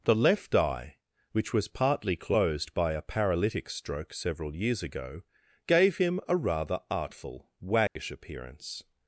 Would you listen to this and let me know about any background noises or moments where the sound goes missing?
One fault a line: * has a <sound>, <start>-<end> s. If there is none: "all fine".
* has a dropout, 7.9-8.0 s